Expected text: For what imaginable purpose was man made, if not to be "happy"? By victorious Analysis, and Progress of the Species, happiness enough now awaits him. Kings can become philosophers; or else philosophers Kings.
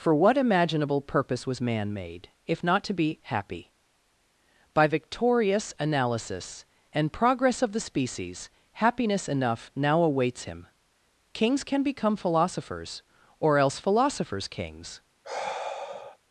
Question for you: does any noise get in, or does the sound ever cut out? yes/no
yes